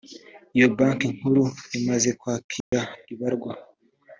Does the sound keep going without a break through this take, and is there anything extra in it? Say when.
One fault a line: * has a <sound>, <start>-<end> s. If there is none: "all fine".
* has a dropout, 2.6-2.7 s